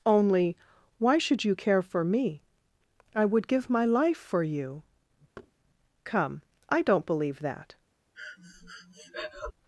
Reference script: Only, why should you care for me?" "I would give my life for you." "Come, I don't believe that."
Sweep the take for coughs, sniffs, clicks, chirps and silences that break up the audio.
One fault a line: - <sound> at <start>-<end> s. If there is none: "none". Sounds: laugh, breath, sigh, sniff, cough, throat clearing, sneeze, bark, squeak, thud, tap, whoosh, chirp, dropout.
- thud at 5.4-5.5 s
- breath at 8.1-9.5 s